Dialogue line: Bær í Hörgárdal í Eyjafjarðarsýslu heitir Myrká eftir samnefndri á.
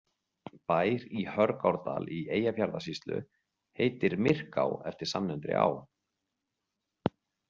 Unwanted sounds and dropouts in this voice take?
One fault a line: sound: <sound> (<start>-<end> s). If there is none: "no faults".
no faults